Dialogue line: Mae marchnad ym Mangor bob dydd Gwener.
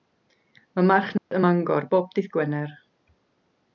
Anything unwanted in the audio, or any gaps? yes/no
yes